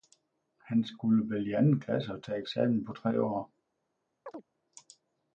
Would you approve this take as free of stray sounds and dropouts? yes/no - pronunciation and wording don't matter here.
no